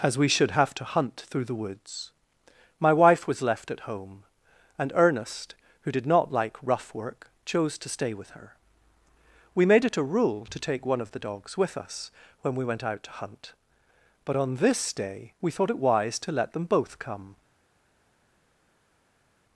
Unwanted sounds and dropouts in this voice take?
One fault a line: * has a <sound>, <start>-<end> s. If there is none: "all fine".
all fine